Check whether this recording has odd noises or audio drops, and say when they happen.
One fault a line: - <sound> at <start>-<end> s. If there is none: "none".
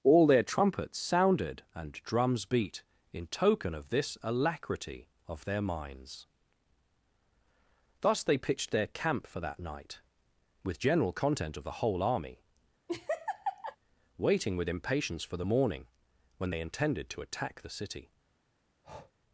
- laugh at 12.9-13.8 s
- breath at 18.8-19.1 s